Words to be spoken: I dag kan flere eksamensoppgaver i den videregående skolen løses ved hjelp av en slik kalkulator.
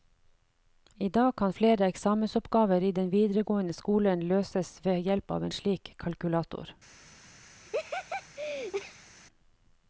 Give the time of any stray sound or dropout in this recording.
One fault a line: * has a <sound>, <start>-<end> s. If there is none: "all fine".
* has a laugh, 7.6-9.1 s